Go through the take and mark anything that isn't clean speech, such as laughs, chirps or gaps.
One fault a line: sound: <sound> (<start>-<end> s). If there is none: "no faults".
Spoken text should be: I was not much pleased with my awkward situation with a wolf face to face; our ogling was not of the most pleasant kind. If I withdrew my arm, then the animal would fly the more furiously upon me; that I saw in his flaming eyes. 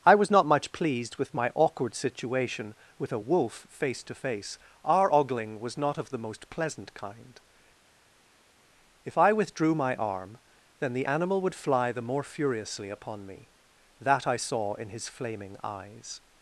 no faults